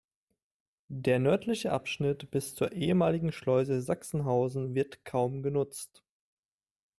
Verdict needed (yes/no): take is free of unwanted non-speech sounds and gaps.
yes